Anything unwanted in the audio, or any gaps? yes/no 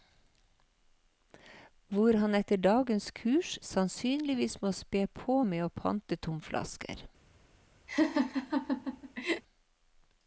yes